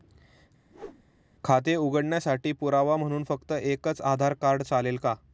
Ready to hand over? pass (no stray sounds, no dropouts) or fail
fail